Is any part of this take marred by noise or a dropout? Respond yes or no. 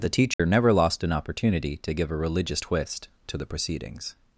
yes